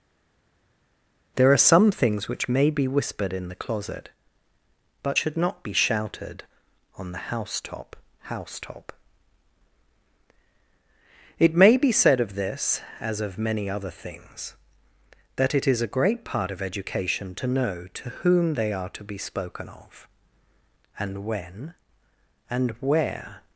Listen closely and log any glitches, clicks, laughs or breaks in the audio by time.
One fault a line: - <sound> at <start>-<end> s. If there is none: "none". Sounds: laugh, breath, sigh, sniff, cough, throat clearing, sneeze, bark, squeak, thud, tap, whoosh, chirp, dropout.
none